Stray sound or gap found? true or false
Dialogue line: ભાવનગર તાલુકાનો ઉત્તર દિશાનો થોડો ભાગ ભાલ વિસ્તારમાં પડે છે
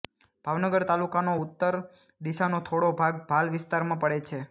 false